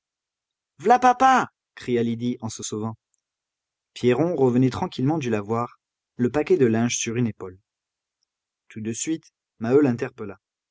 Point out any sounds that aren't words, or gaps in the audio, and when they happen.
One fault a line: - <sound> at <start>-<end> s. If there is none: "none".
none